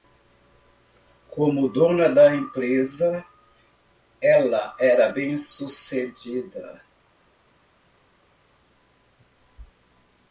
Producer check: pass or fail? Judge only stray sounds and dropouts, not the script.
pass